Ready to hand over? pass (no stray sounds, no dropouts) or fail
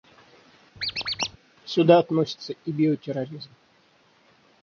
fail